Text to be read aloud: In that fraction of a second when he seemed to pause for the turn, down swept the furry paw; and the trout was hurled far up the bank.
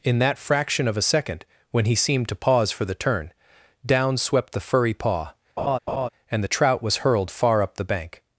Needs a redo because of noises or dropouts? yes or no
yes